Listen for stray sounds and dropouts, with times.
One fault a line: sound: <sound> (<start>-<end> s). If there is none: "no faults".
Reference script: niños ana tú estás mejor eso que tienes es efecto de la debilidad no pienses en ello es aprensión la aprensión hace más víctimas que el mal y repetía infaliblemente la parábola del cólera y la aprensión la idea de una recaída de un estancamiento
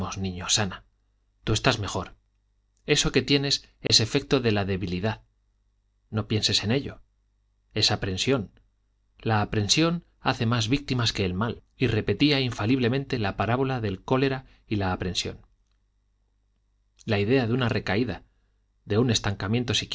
sound: dropout (3.9-3.9 s)